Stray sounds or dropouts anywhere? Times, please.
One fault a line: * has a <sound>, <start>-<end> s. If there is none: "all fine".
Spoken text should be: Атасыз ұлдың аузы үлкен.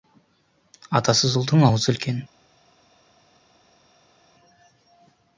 all fine